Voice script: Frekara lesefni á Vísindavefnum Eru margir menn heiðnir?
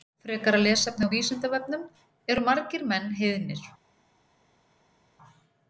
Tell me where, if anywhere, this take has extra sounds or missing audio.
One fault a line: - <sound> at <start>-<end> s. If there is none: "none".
none